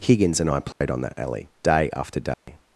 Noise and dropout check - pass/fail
fail